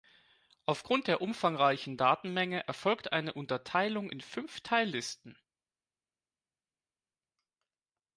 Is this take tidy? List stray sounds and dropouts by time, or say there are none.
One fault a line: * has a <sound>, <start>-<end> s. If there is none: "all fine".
all fine